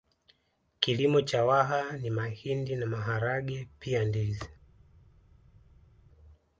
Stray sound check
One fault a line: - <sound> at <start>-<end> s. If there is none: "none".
none